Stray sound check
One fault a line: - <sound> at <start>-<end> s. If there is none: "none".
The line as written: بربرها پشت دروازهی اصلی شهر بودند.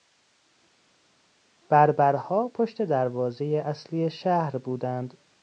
none